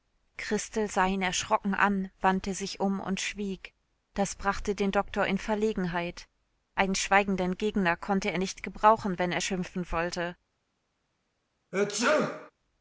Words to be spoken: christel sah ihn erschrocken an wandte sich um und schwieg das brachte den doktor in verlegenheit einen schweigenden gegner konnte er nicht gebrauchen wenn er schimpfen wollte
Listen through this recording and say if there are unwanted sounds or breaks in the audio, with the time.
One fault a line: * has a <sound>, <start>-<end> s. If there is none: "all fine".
* has a sneeze, 11.7-12.5 s